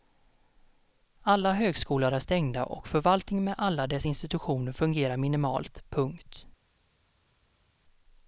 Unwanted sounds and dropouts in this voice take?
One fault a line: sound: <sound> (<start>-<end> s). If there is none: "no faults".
no faults